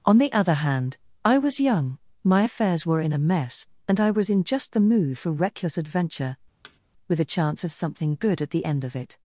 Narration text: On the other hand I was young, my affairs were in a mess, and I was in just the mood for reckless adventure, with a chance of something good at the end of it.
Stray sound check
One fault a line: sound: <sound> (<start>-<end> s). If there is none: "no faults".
sound: thud (6.6-6.8 s)